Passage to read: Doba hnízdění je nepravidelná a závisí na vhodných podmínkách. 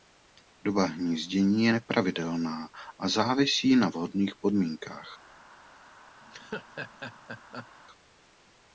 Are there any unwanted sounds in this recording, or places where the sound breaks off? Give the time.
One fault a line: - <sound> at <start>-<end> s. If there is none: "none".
- laugh at 6.2-7.7 s